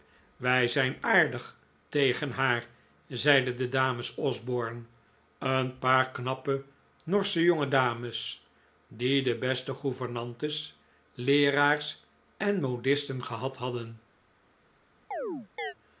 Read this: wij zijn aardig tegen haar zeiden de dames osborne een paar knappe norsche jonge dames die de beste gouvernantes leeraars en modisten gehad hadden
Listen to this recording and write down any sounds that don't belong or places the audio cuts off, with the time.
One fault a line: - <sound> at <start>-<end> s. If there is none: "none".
- chirp at 15.1-15.7 s